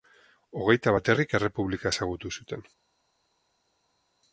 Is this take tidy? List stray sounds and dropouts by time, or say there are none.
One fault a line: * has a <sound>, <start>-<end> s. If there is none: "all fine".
all fine